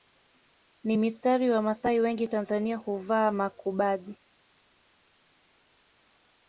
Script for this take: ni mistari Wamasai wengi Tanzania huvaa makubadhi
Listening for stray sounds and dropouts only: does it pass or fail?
pass